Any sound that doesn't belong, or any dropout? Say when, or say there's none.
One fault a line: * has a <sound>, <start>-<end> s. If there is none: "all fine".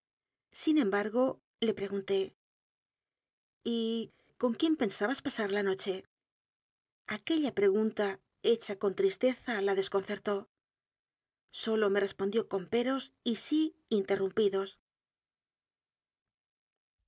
all fine